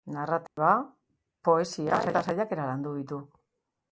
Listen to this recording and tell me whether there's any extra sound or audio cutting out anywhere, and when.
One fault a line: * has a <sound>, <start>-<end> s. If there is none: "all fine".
* has a dropout, 0.5-0.6 s